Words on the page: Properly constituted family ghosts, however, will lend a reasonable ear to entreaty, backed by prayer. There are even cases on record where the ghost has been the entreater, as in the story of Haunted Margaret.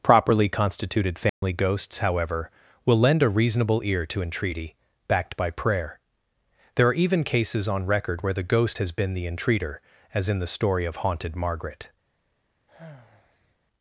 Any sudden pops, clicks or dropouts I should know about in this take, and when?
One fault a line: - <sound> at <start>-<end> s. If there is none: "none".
- dropout at 1.3-1.4 s
- sigh at 12.7-13.6 s